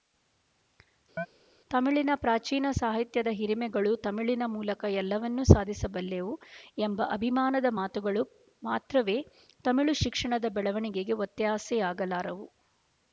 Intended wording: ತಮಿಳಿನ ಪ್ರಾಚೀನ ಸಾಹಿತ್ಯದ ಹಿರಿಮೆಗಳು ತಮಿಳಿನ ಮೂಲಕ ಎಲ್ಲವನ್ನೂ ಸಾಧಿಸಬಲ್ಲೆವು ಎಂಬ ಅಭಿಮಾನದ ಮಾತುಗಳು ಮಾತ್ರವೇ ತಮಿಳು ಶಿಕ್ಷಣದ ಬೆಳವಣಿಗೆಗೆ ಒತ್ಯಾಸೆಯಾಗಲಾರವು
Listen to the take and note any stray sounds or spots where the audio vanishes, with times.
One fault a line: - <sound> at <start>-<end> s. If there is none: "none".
- chirp at 1.2-1.3 s